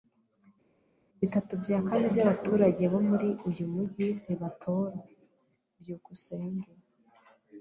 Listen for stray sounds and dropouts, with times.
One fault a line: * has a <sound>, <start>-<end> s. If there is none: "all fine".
all fine